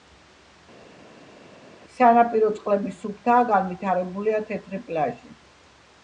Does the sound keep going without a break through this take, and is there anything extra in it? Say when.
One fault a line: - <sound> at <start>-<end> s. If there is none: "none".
none